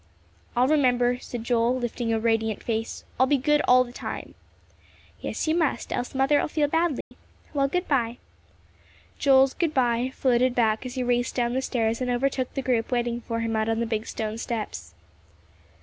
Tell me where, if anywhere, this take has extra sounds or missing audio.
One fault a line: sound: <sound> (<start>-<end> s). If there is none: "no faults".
sound: dropout (7.0-7.1 s)